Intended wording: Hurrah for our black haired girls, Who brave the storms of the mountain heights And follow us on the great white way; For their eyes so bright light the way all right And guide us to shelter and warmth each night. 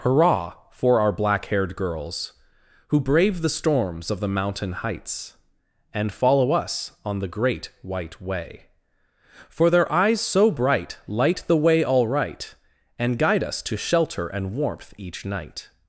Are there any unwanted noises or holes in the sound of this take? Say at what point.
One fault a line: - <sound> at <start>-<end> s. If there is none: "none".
none